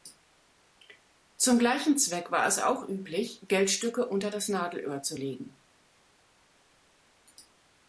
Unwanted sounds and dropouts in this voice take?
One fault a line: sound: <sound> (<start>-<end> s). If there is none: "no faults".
no faults